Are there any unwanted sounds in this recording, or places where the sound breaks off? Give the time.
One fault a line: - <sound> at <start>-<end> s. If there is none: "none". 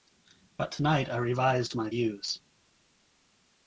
none